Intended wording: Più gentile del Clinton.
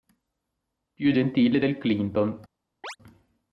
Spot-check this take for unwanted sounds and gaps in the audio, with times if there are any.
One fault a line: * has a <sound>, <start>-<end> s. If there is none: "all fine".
* has a chirp, 2.8-3.0 s